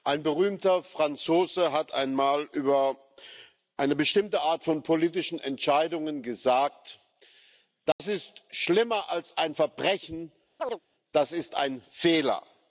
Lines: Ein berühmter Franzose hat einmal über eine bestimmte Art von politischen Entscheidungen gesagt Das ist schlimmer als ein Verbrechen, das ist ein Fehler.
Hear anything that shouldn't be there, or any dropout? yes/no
yes